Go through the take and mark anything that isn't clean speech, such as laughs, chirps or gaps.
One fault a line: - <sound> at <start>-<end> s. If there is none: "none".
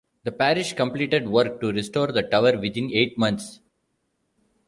none